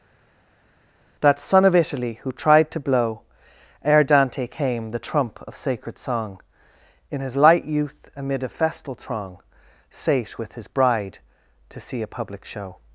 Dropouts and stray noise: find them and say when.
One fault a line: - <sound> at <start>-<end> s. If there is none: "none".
none